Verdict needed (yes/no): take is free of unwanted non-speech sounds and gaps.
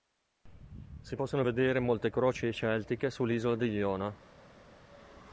yes